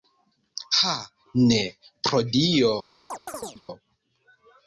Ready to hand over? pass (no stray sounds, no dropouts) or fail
fail